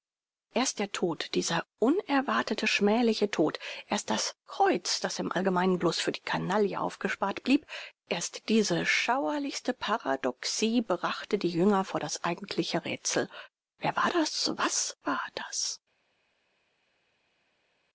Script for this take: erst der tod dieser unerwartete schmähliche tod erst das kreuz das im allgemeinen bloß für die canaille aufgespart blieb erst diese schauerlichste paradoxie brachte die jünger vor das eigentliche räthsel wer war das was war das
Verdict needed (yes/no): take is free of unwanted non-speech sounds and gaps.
yes